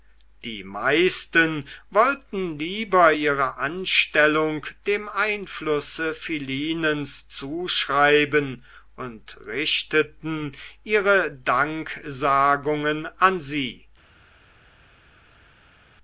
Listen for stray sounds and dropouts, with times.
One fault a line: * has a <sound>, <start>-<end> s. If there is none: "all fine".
all fine